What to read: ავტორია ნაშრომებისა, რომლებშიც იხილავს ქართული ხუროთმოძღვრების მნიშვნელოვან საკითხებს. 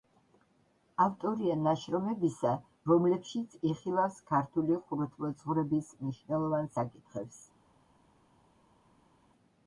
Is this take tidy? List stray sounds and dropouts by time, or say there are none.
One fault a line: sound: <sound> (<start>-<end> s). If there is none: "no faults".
no faults